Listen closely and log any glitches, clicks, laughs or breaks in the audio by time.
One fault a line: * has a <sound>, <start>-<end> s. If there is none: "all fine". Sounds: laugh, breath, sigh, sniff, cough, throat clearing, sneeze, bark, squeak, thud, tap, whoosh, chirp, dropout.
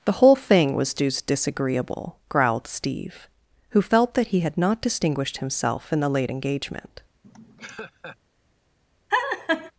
* has a laugh, 7.2-8.2 s
* has a laugh, 9.1-9.7 s